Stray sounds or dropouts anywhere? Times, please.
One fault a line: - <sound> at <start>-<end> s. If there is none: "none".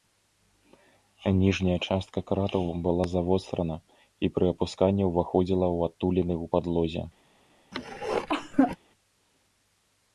- cough at 7.7-8.8 s